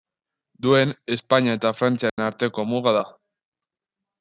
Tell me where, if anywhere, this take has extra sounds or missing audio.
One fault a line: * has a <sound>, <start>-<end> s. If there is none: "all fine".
* has a dropout, 2.1-2.2 s